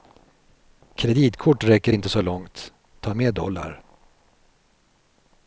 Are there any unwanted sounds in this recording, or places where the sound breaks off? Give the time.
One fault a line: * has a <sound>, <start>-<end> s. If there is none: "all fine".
all fine